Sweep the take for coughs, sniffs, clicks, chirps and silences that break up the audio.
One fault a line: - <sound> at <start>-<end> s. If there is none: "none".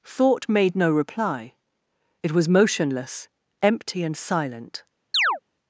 - chirp at 5.1-5.4 s